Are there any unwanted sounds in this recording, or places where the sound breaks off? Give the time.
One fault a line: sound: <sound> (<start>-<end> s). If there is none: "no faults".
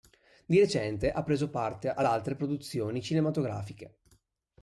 no faults